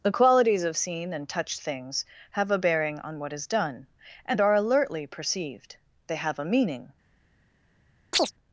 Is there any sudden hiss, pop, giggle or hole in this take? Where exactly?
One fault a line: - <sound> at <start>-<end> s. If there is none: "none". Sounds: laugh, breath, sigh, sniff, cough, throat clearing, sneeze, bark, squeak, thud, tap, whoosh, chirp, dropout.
- chirp at 8.1-8.3 s